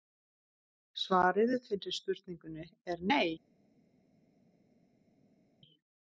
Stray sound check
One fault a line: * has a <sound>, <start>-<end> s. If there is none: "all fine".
all fine